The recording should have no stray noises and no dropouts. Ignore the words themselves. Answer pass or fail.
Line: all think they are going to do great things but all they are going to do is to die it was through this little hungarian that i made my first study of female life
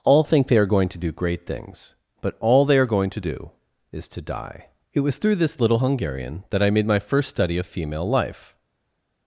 pass